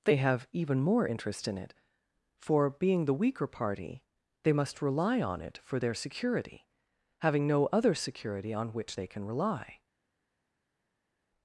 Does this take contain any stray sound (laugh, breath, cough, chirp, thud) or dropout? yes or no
no